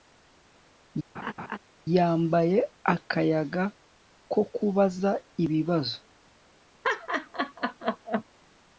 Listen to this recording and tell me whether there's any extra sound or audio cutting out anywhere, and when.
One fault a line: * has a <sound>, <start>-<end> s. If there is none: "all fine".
* has a laugh, 1.1-1.6 s
* has a laugh, 6.8-8.2 s